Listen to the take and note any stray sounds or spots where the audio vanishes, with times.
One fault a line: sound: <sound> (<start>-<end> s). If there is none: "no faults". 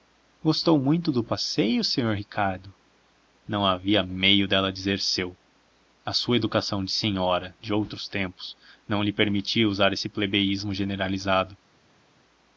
no faults